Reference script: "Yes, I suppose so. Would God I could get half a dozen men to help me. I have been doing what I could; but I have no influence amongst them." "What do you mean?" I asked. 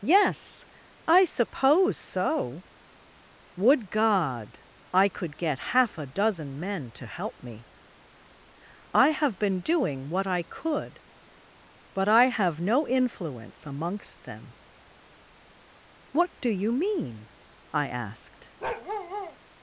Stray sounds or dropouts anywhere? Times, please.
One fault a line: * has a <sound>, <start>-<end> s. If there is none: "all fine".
* has a bark, 18.6-19.4 s